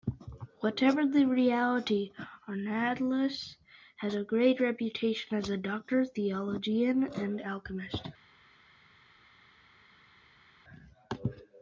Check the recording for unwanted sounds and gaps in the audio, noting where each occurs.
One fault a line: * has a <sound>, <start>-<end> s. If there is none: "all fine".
all fine